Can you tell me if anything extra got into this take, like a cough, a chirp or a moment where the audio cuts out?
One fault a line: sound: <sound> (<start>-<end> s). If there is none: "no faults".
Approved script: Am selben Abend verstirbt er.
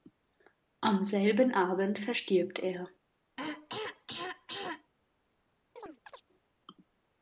sound: throat clearing (3.4-4.9 s)
sound: chirp (5.8-6.2 s)